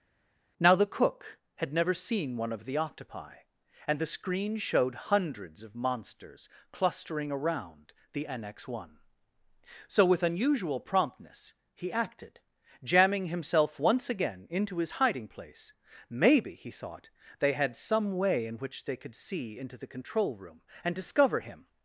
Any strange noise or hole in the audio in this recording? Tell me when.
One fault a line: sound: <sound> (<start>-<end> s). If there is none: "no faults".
no faults